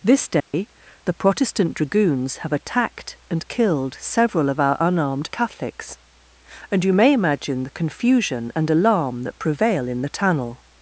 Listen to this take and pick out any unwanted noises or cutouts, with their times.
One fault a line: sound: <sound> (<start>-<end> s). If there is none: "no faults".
sound: dropout (0.4-0.5 s)